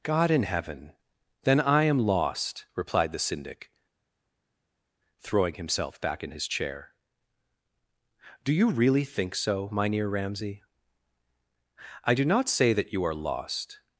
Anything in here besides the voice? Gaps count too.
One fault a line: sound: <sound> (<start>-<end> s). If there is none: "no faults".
no faults